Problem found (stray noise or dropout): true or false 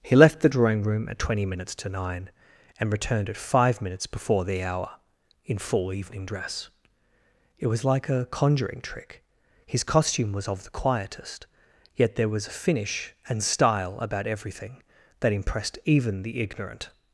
false